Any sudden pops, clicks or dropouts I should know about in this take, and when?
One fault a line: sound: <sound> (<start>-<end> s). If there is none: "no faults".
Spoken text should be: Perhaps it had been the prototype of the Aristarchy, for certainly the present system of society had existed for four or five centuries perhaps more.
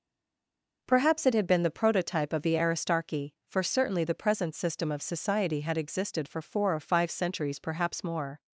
no faults